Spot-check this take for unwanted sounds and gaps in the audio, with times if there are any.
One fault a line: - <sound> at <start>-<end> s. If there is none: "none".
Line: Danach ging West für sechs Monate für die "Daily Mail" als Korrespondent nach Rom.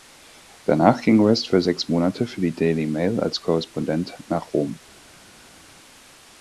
none